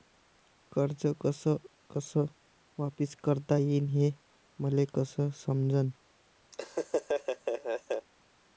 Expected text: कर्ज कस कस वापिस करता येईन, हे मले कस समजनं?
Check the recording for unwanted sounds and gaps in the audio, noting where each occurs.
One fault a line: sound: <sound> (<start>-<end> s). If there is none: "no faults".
sound: laugh (6.5-8.1 s)